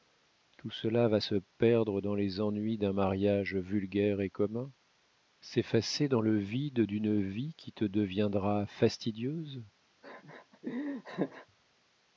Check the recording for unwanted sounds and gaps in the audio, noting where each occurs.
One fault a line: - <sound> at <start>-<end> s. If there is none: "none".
- laugh at 10.0-11.5 s